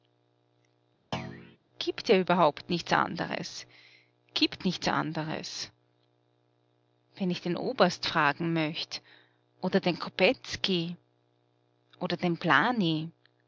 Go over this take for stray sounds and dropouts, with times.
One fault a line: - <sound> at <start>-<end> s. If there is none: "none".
- thud at 1.1-1.6 s